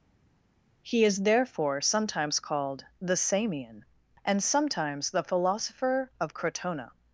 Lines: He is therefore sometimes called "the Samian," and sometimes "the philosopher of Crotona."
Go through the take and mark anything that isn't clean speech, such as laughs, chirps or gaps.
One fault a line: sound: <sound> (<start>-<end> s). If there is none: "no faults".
no faults